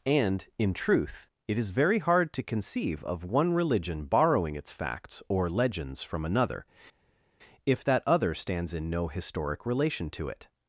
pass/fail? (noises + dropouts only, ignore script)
pass